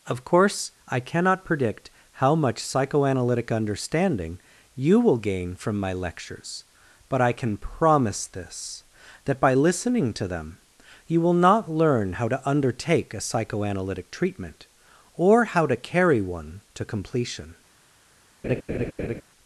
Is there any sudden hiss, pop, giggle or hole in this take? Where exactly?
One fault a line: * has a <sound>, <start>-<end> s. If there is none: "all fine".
* has a laugh, 18.4-19.2 s